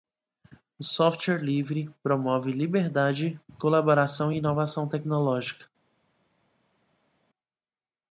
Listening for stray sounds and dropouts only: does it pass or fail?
pass